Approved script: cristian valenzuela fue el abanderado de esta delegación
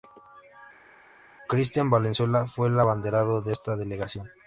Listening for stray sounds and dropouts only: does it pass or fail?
pass